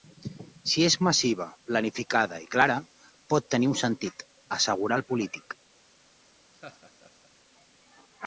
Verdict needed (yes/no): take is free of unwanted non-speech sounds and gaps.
no